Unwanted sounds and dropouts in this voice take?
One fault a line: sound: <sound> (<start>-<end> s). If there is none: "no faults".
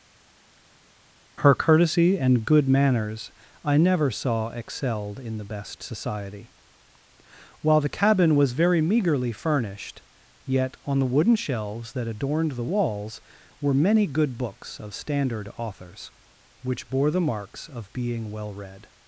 no faults